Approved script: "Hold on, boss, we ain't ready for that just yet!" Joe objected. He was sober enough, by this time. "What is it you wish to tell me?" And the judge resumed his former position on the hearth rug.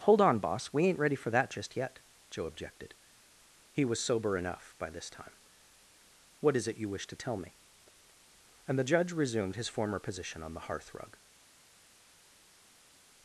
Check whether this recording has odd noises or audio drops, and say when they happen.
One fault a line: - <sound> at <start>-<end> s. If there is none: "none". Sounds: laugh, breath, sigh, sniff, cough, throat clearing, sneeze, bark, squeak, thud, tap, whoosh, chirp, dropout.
none